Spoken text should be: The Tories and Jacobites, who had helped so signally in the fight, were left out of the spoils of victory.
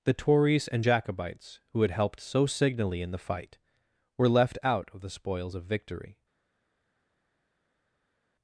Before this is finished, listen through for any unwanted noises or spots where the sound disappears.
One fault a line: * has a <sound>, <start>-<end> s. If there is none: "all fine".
all fine